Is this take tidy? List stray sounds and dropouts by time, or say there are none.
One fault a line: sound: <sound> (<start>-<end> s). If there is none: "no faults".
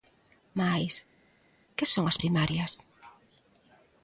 no faults